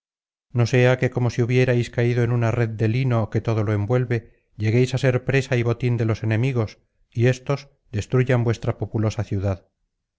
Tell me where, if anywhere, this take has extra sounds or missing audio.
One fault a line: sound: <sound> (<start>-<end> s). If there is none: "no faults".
no faults